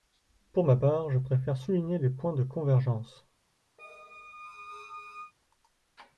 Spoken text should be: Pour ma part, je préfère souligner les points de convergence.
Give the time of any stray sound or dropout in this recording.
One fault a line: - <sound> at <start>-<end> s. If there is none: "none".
- squeak at 3.8-5.3 s